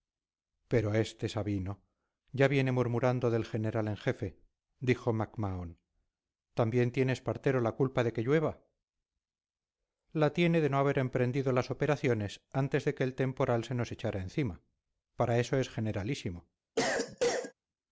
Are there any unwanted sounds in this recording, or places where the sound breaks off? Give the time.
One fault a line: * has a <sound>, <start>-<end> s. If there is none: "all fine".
* has a cough, 16.8-17.5 s